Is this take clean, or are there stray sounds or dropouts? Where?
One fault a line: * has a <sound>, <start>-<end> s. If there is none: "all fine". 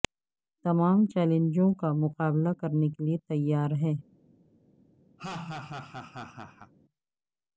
* has a laugh, 5.2-6.7 s